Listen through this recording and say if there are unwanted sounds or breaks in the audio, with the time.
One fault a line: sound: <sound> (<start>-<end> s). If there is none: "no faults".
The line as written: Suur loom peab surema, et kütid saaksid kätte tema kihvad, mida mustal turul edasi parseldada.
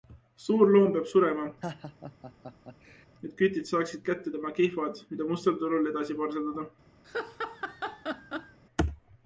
sound: laugh (1.6-3.1 s)
sound: laugh (7.0-8.6 s)